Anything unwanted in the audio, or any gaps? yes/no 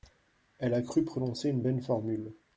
no